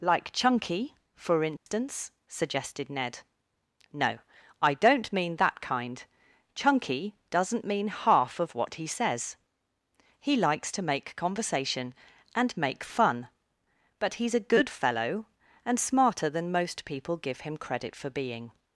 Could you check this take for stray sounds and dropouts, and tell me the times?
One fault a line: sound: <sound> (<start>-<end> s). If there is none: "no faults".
sound: dropout (1.6-1.7 s)